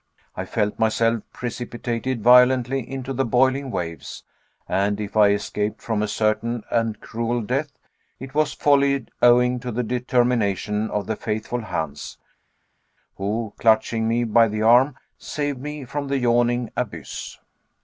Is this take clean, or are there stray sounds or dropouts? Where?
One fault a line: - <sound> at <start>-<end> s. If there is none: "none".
none